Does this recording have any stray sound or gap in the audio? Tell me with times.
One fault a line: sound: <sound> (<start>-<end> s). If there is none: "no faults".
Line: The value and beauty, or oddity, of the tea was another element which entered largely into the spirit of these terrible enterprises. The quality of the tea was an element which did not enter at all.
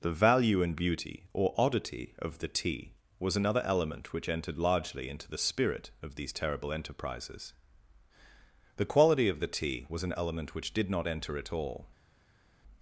no faults